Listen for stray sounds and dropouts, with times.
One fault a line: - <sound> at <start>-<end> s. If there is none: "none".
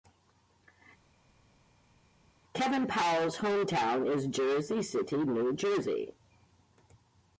none